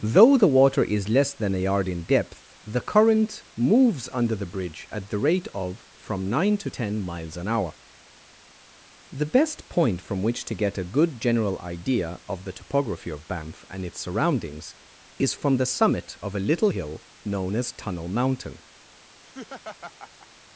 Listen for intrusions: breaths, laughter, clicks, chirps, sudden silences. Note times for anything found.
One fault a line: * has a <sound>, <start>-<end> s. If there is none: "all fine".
* has a laugh, 19.2-20.3 s